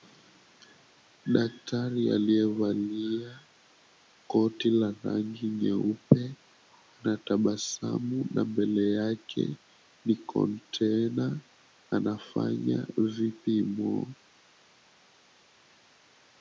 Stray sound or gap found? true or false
false